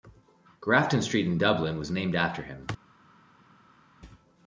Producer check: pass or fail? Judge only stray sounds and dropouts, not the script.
pass